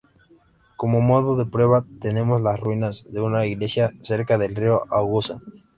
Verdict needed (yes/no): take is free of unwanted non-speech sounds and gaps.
yes